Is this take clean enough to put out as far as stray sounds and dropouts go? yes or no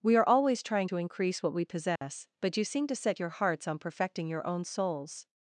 no